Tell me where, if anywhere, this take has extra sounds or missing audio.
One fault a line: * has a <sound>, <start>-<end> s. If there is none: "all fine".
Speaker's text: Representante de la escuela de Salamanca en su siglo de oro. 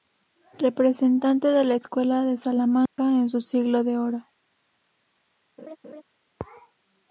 * has a dropout, 2.9-3.0 s
* has a laugh, 5.6-6.0 s